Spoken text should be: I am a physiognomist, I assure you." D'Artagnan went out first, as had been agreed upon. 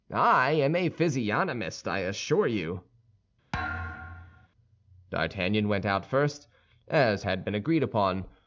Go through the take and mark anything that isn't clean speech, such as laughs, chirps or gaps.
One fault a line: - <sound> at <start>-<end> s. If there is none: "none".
- thud at 3.5-4.5 s